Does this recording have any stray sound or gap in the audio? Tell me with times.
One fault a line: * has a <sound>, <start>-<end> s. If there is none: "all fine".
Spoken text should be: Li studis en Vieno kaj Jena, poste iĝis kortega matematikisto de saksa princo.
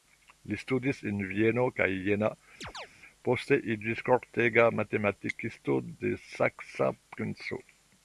* has a chirp, 2.6-2.9 s